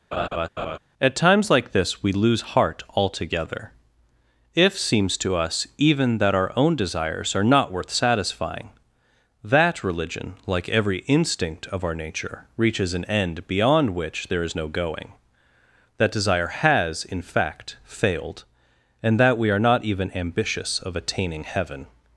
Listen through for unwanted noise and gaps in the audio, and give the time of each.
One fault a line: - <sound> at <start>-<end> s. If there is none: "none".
- laugh at 0.1-0.8 s